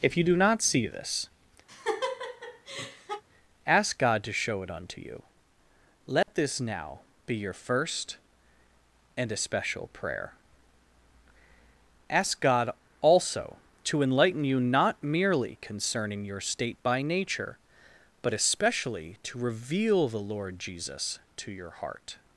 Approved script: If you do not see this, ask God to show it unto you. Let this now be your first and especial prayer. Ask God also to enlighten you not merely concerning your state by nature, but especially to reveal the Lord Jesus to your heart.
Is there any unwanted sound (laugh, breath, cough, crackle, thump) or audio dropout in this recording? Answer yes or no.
yes